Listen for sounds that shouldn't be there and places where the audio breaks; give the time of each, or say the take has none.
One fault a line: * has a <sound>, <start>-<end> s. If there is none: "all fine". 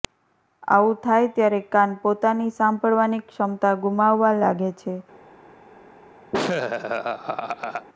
* has a laugh, 6.3-7.9 s